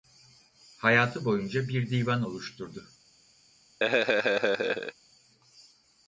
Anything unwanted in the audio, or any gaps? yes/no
yes